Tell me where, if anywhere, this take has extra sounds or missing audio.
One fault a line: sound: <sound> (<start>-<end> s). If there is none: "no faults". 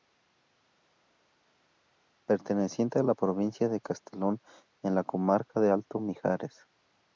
no faults